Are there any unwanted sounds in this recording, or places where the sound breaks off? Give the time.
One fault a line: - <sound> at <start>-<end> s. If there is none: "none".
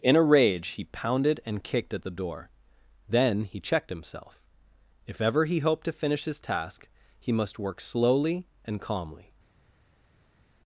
none